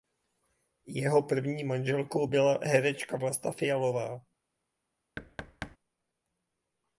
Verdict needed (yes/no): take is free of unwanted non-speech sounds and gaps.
no